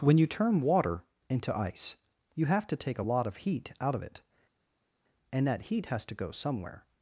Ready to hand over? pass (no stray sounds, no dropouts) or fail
pass